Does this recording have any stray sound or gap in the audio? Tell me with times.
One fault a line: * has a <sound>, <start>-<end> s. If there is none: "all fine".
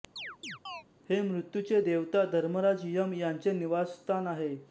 * has a chirp, 0.2-0.8 s